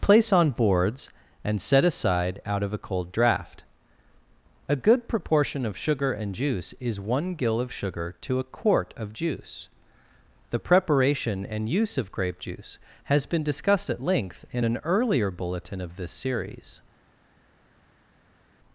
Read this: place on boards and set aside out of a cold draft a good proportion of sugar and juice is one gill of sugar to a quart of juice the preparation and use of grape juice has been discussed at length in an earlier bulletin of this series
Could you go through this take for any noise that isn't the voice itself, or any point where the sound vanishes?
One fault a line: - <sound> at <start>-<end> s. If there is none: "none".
none